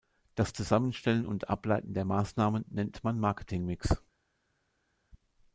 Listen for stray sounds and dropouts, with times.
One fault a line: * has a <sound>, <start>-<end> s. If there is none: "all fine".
all fine